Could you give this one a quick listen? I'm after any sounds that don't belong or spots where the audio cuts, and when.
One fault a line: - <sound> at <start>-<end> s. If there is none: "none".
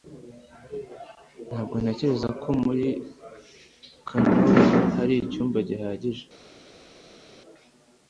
none